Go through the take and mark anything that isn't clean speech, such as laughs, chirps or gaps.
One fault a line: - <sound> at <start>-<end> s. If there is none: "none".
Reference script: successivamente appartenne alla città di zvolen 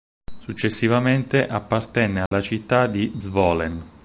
- dropout at 2.3-2.3 s